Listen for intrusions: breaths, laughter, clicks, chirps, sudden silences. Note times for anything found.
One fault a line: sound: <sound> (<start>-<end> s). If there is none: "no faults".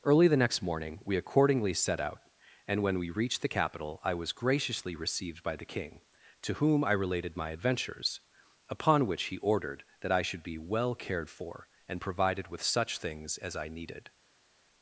no faults